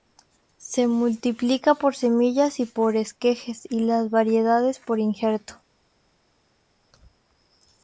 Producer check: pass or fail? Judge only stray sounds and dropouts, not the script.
pass